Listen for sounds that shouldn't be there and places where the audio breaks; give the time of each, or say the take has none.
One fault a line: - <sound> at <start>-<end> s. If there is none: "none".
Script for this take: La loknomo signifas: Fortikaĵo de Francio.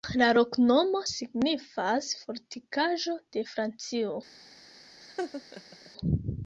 - laugh at 5.0-5.9 s